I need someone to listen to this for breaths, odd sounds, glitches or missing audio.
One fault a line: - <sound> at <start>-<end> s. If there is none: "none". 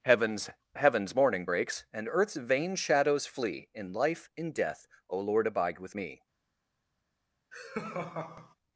- laugh at 7.5-8.5 s